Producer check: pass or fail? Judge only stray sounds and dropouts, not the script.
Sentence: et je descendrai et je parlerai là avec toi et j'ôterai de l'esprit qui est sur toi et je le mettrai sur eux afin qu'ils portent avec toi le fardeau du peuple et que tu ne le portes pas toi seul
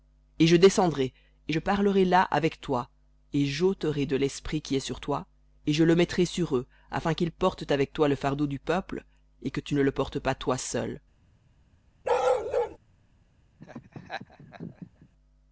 fail